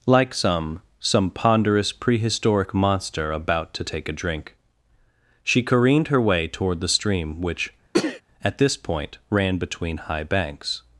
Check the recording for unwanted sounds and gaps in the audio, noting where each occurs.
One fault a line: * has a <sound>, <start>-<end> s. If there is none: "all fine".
* has a sneeze, 7.9-8.2 s